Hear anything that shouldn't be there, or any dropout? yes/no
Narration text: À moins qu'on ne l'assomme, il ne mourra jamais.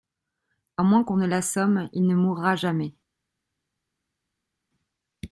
no